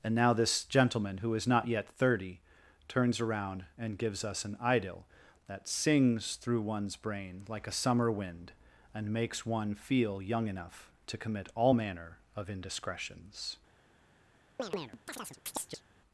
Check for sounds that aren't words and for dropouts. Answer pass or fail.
fail